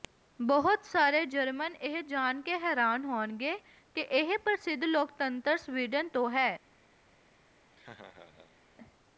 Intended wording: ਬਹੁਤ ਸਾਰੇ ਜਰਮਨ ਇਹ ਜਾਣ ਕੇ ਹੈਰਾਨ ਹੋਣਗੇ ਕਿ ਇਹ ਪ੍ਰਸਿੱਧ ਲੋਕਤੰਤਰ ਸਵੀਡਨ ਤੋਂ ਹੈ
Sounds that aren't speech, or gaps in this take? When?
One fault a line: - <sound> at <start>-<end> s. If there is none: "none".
- laugh at 7.7-8.6 s